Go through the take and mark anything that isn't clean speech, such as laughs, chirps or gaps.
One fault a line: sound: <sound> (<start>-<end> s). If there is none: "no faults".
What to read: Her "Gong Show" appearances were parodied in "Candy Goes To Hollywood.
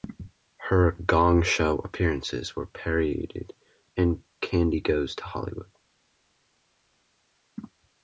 no faults